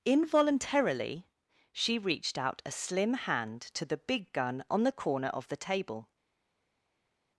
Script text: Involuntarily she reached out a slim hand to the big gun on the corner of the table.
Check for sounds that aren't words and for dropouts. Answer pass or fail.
pass